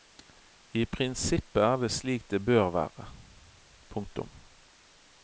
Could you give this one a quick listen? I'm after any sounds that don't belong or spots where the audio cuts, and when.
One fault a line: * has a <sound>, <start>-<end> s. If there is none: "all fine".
all fine